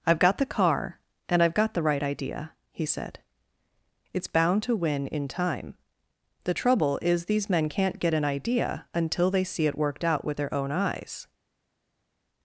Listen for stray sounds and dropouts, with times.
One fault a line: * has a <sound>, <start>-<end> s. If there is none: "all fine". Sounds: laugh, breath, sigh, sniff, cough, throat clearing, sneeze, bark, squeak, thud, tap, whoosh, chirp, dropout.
all fine